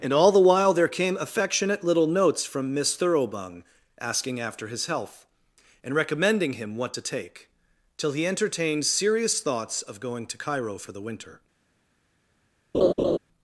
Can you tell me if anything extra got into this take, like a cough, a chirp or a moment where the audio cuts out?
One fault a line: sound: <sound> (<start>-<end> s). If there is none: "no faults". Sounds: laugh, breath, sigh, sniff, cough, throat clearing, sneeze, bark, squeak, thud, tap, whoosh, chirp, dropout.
sound: laugh (12.7-13.2 s)